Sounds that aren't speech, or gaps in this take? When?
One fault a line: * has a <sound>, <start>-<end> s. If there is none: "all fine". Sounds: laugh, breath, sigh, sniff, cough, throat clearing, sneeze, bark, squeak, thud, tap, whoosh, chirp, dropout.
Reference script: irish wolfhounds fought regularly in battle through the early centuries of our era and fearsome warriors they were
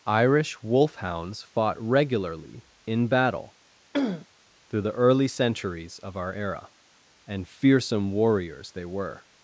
* has a throat clearing, 3.9-4.3 s